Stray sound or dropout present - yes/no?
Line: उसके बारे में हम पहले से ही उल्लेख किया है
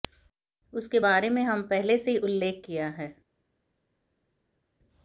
no